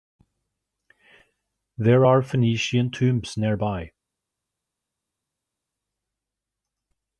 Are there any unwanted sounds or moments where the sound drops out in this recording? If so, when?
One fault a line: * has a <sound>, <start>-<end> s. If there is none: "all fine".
all fine